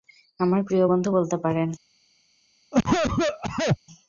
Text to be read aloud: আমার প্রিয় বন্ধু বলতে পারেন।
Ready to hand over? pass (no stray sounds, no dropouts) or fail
fail